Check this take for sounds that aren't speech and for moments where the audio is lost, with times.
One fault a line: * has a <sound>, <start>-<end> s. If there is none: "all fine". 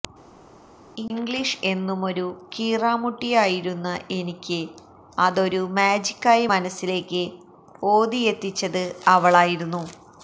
all fine